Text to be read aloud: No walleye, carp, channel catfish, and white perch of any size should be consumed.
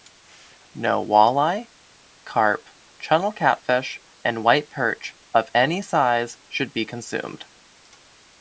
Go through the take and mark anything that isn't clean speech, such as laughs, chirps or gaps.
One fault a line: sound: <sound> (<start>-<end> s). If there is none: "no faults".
no faults